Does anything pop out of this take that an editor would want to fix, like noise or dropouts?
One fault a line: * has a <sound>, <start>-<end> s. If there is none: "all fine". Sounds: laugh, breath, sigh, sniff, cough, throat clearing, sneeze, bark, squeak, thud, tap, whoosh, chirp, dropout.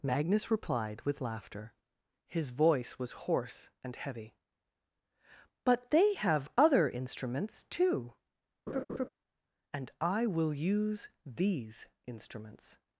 * has a laugh, 8.7-9.1 s